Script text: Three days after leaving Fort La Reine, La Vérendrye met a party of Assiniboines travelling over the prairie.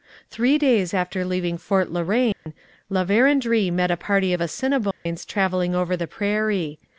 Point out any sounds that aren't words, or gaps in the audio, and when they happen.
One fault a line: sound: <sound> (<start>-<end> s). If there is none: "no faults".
sound: dropout (2.3-2.5 s)
sound: dropout (4.9-5.1 s)